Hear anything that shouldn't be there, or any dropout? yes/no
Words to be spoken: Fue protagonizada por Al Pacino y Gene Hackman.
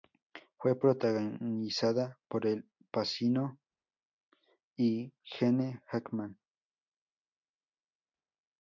no